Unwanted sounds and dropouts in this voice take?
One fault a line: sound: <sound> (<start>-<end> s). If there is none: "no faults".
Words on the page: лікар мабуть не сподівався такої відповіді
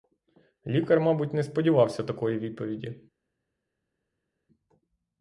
no faults